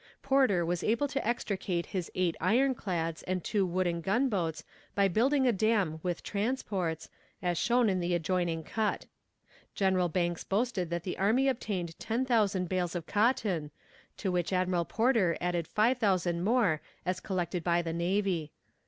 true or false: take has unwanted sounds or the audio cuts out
false